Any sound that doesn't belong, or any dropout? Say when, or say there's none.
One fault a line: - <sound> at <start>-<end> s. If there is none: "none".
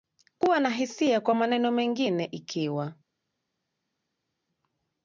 none